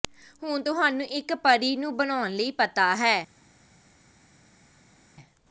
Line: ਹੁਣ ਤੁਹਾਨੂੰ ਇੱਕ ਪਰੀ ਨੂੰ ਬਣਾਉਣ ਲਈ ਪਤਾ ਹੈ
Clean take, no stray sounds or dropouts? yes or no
yes